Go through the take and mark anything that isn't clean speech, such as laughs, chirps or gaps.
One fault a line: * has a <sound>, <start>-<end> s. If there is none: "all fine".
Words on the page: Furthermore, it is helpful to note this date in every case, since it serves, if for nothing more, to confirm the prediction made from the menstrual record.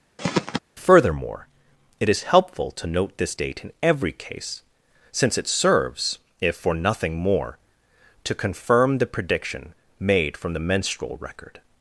* has a throat clearing, 0.2-0.6 s